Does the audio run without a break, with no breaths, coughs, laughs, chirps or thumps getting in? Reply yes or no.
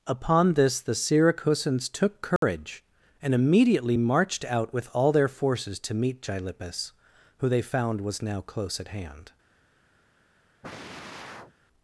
no